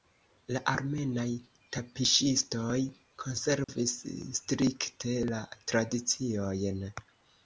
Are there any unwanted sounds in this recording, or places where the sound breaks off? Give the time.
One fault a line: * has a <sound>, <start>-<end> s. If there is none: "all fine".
* has a dropout, 3.6-3.7 s